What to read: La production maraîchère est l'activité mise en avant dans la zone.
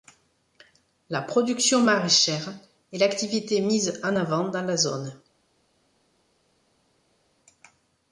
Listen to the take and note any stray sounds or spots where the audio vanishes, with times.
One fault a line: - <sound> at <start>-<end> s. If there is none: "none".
none